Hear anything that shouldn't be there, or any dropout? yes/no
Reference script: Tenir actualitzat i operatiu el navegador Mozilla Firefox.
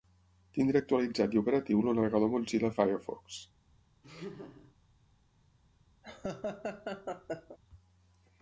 yes